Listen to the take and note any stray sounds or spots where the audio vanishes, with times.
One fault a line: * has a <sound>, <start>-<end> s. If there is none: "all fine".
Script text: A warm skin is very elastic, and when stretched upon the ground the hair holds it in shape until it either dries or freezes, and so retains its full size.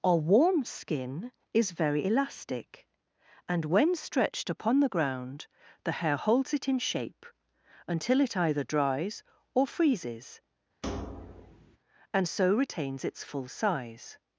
* has a thud, 10.8-11.8 s